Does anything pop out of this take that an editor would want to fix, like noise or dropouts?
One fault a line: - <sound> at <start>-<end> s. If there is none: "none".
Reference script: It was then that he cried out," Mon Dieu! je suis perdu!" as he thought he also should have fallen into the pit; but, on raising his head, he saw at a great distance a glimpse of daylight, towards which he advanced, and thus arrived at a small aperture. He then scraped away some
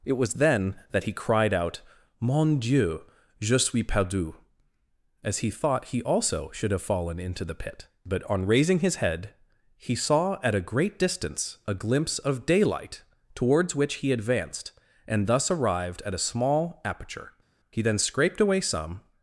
none